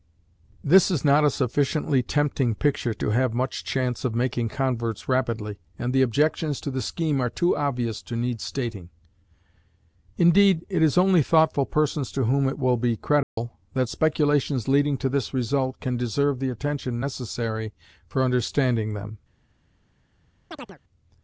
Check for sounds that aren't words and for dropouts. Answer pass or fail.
fail